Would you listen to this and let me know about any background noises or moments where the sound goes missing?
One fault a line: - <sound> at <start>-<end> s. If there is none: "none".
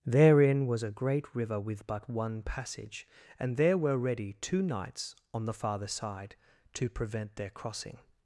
none